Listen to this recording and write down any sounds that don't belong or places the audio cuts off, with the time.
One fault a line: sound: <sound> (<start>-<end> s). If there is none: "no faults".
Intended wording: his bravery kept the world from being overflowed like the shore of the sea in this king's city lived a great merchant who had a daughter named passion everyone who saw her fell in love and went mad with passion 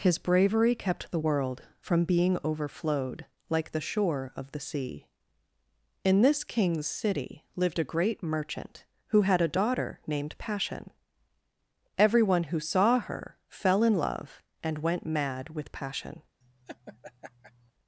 sound: laugh (16.4-17.7 s)